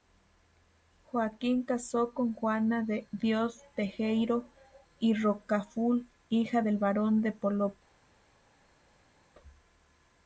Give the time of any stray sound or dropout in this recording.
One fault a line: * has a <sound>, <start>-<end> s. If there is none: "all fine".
all fine